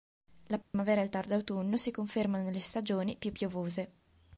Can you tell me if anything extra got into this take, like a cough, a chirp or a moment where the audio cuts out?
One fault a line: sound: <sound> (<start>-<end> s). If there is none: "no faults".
sound: dropout (0.6-0.7 s)